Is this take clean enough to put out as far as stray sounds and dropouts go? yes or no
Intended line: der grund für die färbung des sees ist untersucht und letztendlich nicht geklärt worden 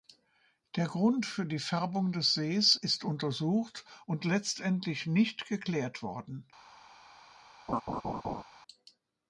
no